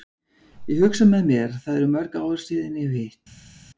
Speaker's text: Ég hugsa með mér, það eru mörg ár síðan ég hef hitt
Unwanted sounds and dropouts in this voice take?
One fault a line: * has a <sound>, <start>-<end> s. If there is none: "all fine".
all fine